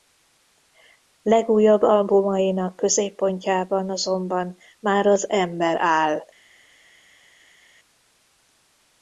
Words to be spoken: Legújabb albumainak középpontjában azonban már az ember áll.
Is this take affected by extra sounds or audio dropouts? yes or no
no